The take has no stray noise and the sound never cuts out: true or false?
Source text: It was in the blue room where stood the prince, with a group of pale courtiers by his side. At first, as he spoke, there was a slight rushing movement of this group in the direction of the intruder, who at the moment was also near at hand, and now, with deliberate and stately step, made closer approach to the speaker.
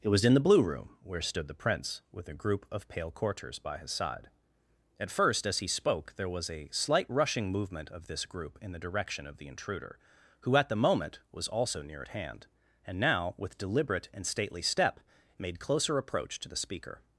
true